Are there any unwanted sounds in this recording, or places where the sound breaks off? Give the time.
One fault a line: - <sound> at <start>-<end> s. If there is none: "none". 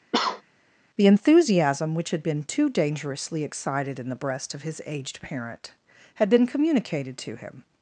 - cough at 0.1-0.4 s